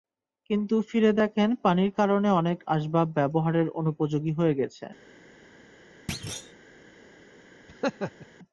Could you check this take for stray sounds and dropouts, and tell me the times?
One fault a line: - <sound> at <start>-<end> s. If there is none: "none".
- thud at 6.1-6.5 s
- laugh at 7.7-8.3 s